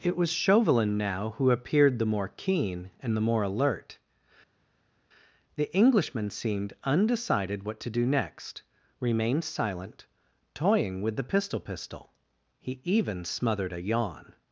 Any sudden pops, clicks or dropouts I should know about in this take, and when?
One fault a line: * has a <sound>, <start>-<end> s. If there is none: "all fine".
all fine